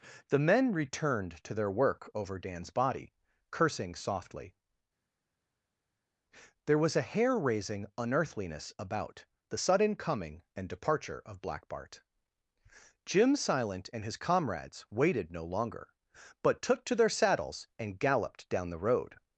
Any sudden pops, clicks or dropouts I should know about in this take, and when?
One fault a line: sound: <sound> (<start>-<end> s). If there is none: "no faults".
no faults